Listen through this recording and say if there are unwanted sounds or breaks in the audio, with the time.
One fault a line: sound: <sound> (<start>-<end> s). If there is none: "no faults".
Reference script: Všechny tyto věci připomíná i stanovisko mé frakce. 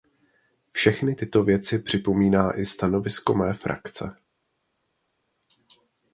no faults